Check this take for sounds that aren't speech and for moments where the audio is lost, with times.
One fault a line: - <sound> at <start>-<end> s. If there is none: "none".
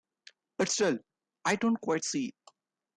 none